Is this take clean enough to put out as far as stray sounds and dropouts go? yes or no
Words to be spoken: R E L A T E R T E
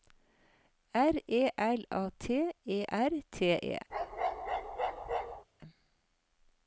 no